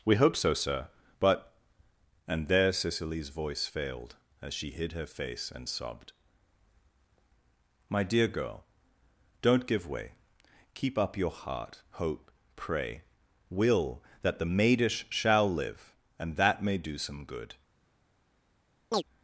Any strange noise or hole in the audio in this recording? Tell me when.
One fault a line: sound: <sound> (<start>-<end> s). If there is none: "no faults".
sound: chirp (18.9-19.0 s)